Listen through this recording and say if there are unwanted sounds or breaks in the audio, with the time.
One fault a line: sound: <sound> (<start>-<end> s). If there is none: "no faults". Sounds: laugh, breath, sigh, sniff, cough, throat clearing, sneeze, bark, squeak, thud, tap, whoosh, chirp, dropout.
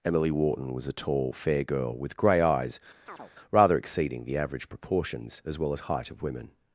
sound: chirp (3.1-3.3 s)